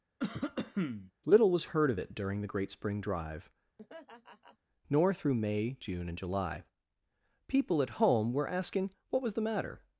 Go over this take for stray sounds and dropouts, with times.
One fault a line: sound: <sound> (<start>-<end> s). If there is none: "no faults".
sound: cough (0.2-1.1 s)
sound: laugh (3.8-4.6 s)